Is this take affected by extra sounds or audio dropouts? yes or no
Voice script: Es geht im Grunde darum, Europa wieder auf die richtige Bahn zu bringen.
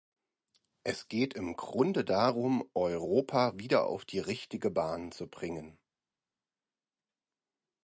no